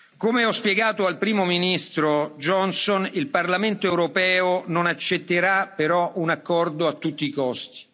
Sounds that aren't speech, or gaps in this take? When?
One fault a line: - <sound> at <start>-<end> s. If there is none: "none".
none